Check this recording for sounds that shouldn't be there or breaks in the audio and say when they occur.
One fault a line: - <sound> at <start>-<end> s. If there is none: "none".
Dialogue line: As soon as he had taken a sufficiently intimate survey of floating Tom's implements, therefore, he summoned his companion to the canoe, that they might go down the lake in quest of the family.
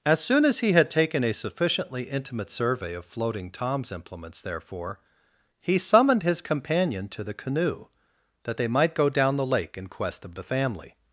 none